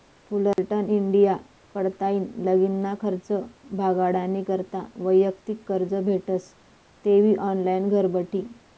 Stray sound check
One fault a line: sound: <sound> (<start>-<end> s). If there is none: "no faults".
sound: dropout (0.5-0.6 s)